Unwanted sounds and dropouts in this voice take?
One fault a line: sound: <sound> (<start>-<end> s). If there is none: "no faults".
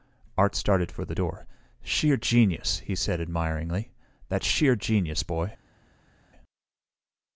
no faults